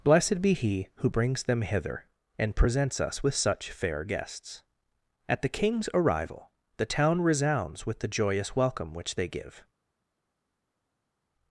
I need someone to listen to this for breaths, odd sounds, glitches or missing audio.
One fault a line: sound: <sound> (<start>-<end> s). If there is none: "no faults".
no faults